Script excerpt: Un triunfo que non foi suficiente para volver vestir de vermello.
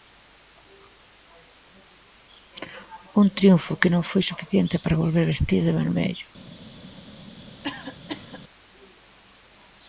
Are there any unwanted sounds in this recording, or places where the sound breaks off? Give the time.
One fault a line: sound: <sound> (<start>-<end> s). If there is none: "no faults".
sound: cough (7.6-8.4 s)